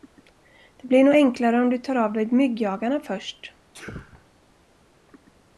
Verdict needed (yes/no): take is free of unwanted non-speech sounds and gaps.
no